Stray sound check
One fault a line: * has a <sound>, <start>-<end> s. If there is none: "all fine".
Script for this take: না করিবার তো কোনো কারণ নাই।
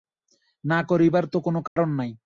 * has a dropout, 1.7-1.8 s